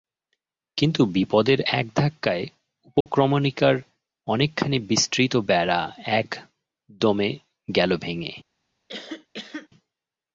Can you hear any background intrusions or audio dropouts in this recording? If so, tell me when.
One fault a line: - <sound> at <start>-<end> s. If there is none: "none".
- dropout at 3.0-3.1 s
- cough at 8.9-9.7 s